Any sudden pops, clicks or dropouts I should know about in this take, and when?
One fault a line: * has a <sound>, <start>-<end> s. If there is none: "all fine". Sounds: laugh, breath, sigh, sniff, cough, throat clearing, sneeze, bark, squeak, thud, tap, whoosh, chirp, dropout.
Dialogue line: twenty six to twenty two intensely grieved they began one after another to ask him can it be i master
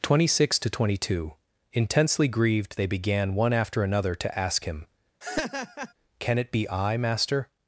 * has a laugh, 5.2-5.9 s